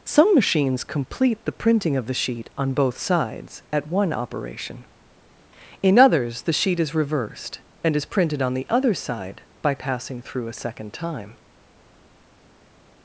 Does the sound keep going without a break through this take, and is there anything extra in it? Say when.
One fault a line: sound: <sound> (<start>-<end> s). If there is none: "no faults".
no faults